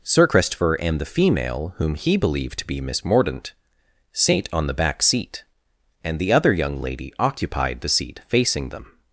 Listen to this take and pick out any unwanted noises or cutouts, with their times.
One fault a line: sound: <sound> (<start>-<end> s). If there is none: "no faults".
no faults